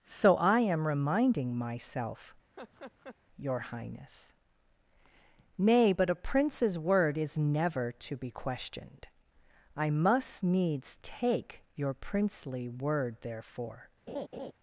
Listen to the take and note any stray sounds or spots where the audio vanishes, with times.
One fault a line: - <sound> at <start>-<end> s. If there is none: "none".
- laugh at 2.5-3.2 s
- laugh at 14.1-14.5 s